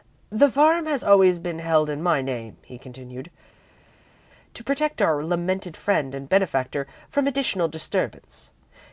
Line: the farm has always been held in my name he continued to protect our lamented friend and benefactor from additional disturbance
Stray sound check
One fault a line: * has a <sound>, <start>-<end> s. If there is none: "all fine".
all fine